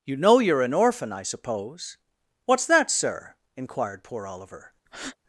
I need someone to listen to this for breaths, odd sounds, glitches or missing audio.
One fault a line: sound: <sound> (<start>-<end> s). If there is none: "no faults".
sound: breath (4.9-5.2 s)